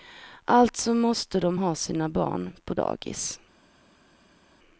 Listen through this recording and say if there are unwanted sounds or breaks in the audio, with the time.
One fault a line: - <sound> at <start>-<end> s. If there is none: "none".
none